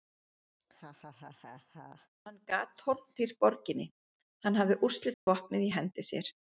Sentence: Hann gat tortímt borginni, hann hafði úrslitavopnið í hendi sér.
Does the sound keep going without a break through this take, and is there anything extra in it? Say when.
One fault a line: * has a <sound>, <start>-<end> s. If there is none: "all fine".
* has a laugh, 0.6-2.1 s
* has a dropout, 5.1-5.3 s